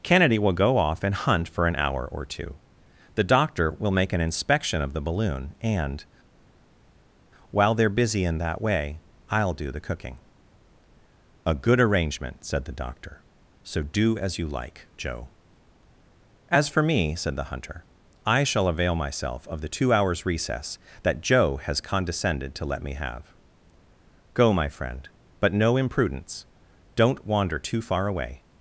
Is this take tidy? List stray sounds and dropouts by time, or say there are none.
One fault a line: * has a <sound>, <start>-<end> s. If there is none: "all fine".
all fine